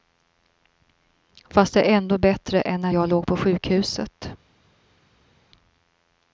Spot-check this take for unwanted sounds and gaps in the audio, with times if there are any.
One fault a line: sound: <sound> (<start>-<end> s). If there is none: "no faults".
no faults